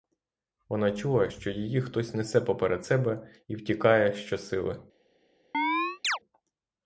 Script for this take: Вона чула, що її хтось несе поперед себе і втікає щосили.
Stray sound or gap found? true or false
true